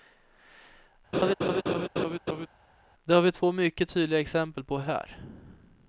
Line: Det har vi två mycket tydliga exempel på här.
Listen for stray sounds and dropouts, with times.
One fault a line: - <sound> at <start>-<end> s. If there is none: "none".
- laugh at 1.1-2.5 s